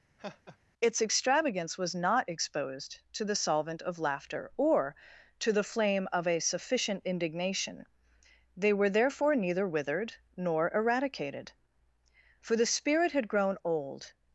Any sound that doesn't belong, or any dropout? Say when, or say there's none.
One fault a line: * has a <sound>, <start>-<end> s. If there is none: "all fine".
* has a laugh, 0.2-0.6 s